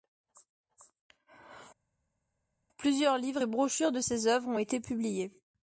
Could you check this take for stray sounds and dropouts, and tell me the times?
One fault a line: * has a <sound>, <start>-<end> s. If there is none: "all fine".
all fine